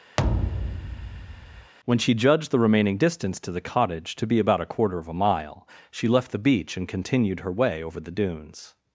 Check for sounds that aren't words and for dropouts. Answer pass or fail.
fail